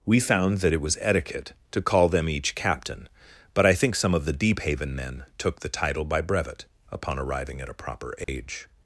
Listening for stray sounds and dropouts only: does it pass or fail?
fail